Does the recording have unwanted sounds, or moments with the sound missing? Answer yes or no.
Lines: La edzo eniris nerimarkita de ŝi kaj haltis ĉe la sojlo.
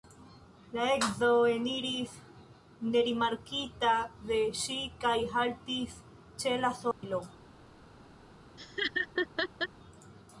yes